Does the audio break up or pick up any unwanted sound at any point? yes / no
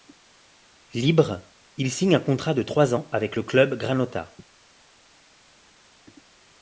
no